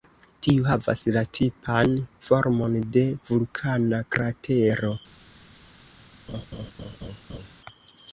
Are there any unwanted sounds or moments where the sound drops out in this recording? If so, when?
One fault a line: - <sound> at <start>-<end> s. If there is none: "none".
- laugh at 6.3-7.5 s